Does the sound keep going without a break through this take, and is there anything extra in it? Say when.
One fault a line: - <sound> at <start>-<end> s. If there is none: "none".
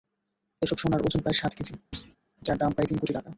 - thud at 1.9-2.2 s